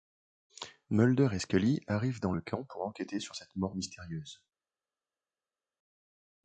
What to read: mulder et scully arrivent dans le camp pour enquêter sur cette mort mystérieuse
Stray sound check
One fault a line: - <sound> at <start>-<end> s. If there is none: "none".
none